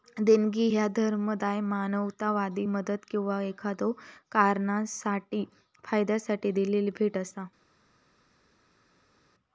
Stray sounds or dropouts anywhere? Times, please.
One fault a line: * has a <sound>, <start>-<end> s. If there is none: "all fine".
all fine